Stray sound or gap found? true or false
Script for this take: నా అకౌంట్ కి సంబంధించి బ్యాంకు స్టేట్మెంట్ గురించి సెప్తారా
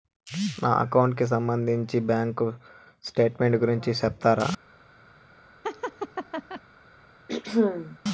true